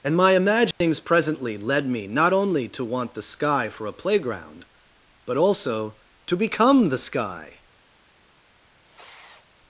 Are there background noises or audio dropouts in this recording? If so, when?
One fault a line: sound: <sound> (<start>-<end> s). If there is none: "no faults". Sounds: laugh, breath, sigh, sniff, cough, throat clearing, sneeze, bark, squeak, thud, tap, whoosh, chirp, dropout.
sound: dropout (0.7-0.8 s)
sound: sniff (8.8-9.5 s)